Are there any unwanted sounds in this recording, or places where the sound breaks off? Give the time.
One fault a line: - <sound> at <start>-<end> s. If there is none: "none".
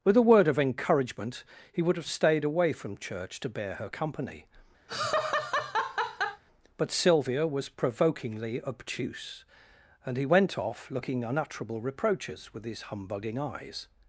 - laugh at 4.9-6.4 s